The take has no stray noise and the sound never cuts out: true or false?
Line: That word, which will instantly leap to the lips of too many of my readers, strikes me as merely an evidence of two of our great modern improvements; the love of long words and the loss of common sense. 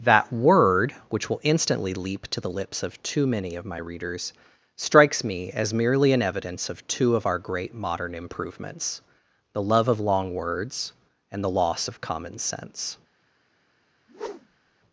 false